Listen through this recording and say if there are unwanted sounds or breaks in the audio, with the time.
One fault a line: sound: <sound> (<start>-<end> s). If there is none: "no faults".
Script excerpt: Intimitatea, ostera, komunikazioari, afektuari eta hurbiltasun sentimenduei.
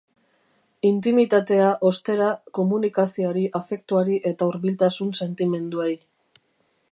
no faults